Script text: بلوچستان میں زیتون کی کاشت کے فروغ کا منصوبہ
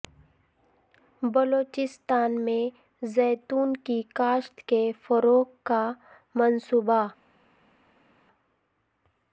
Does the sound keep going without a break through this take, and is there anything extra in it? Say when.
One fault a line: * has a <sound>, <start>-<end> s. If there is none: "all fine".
all fine